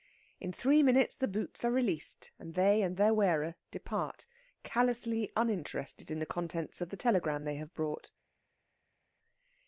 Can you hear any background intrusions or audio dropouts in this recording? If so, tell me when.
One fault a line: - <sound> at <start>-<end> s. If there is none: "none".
none